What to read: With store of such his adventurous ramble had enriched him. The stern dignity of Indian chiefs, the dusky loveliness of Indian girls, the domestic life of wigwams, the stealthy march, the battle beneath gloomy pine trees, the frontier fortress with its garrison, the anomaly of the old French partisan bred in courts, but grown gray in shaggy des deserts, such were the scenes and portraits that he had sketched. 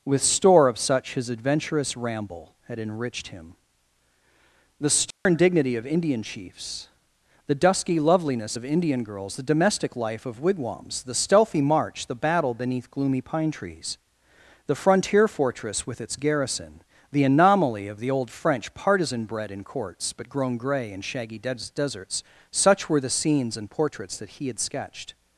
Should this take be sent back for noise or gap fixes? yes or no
yes